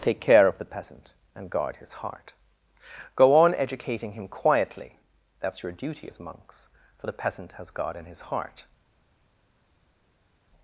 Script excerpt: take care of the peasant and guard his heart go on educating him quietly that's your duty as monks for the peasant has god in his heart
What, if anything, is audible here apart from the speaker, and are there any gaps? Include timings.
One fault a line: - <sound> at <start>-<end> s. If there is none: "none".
none